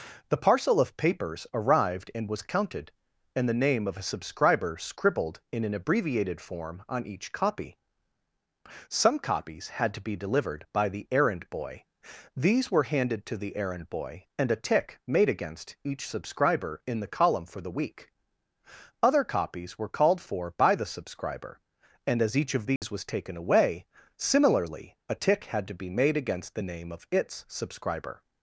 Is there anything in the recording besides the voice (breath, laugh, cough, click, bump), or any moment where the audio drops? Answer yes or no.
yes